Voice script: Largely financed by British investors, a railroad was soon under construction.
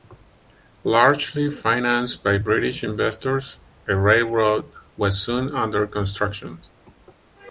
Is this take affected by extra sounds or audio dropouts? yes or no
no